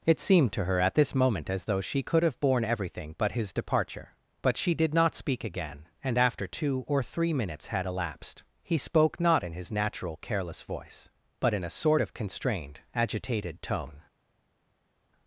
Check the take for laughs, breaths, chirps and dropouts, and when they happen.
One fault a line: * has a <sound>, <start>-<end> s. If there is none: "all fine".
all fine